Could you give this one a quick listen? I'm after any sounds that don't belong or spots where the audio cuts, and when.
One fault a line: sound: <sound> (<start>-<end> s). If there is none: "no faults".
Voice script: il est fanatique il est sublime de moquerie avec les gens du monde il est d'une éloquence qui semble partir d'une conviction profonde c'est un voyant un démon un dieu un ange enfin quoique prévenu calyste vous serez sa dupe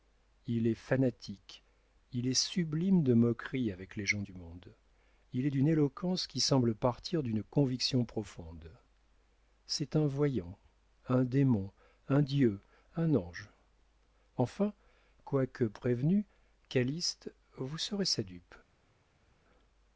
no faults